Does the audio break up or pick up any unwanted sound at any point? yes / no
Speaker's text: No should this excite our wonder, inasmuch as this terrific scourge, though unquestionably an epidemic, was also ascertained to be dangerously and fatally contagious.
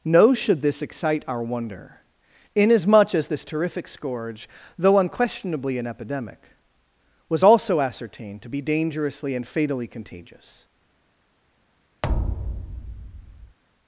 yes